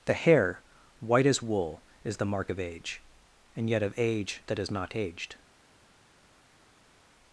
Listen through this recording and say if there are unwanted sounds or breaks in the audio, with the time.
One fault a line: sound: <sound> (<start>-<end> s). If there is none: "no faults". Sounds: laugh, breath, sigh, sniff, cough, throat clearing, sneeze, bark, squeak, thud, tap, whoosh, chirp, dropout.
no faults